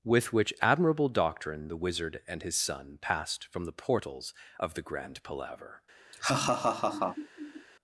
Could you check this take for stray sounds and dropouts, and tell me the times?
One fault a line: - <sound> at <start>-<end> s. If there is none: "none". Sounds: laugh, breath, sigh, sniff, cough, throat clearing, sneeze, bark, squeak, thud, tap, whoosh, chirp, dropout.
- laugh at 6.1-7.7 s